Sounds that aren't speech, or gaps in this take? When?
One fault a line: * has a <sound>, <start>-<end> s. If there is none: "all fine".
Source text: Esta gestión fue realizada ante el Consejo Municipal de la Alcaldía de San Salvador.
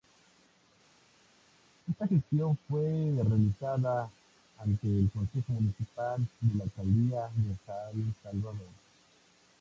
all fine